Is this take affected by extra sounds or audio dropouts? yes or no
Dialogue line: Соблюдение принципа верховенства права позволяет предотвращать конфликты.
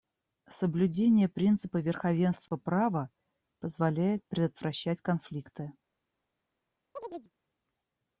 yes